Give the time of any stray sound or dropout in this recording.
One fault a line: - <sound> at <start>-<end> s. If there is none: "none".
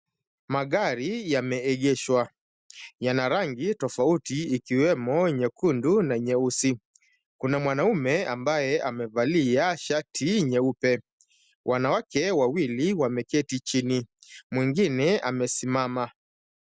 none